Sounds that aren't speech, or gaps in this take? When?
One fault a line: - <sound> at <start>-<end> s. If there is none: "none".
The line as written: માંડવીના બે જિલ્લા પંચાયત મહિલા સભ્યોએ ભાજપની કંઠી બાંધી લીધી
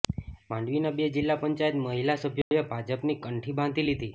- dropout at 2.4-2.5 s